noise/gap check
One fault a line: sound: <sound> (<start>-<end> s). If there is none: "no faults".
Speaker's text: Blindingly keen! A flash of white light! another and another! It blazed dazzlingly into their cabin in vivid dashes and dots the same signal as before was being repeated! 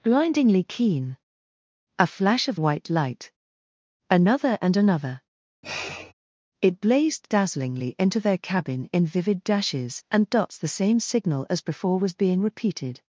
sound: sniff (5.6-6.1 s)